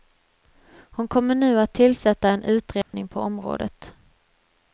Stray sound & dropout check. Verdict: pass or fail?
fail